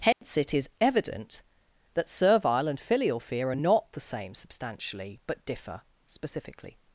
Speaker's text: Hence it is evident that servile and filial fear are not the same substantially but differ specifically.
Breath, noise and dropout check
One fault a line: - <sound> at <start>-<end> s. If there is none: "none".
- dropout at 0.1-0.2 s